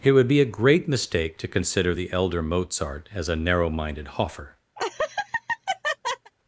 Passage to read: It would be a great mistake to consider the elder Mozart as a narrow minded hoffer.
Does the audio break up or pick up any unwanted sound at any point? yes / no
yes